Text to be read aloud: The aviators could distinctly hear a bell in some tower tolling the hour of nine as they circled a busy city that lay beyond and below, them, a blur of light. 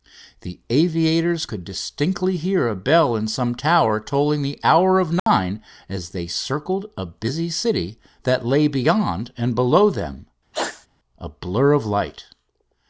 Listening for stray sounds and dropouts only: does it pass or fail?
fail